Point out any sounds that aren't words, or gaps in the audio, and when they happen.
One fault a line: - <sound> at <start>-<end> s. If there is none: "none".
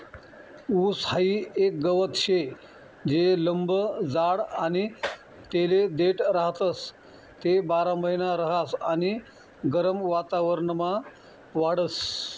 none